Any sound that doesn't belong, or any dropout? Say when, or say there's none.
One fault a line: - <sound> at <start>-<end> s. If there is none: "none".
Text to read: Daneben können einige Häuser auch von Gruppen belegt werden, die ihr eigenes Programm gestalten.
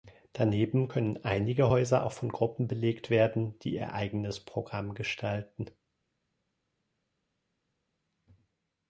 none